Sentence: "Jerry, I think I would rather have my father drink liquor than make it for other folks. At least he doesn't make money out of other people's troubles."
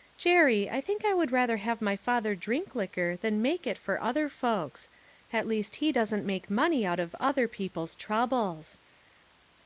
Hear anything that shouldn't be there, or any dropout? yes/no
no